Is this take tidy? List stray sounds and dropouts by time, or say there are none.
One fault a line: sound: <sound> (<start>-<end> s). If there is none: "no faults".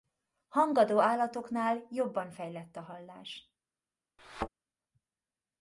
sound: thud (4.2-4.5 s)